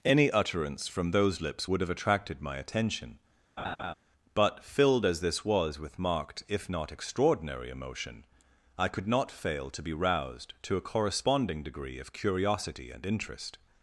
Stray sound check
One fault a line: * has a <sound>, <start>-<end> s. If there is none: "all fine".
* has a laugh, 3.6-3.9 s